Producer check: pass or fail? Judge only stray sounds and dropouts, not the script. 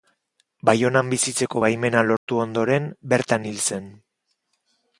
fail